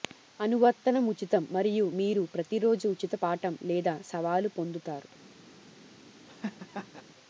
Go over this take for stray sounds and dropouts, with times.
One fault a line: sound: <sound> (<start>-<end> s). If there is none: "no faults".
sound: laugh (6.3-7.0 s)